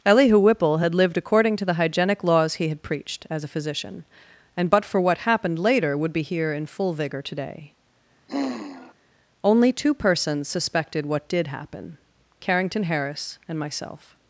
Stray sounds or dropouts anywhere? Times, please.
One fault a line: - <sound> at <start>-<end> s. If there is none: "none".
- sigh at 8.3-8.9 s